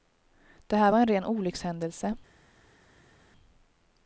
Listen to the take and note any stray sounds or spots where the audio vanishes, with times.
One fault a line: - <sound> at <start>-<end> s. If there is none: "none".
none